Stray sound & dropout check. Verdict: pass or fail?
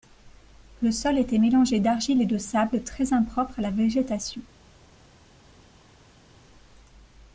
pass